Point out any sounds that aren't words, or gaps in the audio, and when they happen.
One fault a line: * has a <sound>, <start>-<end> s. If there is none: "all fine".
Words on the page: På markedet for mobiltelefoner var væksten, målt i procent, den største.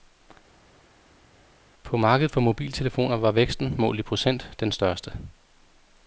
all fine